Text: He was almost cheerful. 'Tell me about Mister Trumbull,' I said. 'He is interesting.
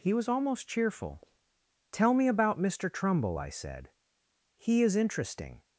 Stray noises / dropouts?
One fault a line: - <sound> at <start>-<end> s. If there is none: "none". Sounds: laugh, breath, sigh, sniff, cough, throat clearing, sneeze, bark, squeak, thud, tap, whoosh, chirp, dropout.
none